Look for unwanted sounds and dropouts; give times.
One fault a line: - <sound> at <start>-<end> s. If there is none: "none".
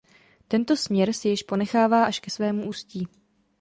none